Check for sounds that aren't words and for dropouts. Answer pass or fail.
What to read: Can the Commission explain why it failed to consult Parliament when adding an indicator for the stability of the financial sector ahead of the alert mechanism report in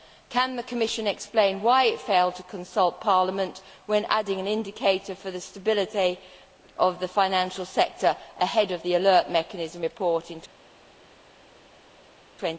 pass